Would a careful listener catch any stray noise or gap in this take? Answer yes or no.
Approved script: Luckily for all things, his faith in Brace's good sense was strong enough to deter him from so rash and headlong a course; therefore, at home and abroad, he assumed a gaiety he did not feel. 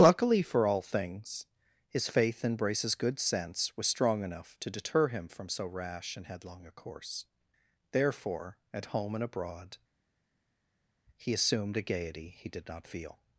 no